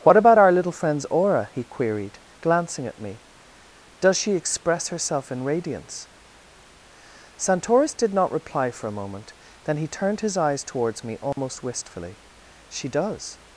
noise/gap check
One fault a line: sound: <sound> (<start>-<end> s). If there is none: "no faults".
sound: dropout (11.3-11.4 s)